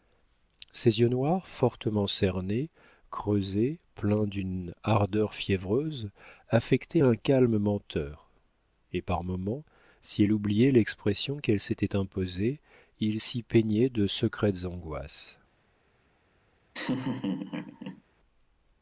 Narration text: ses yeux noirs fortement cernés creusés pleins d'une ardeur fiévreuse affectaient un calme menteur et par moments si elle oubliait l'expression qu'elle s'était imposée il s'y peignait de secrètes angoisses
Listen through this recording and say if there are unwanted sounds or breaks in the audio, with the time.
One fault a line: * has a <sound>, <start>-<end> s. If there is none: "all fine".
* has a laugh, 16.7-18.0 s